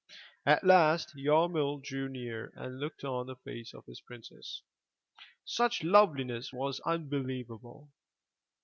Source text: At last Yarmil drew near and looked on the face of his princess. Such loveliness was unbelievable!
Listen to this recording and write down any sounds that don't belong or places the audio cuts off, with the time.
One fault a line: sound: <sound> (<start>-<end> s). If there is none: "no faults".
no faults